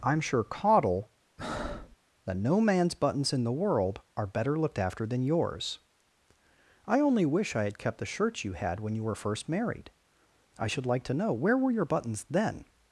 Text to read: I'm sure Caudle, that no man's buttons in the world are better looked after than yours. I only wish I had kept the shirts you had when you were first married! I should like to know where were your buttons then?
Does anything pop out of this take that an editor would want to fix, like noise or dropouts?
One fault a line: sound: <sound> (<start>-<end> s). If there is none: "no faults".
sound: breath (1.4-2.0 s)